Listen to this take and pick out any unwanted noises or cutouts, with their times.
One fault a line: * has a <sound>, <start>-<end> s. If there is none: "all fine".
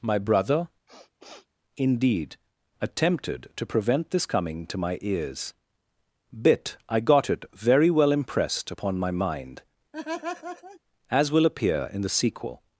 * has a sniff, 0.9-1.5 s
* has a laugh, 9.9-10.8 s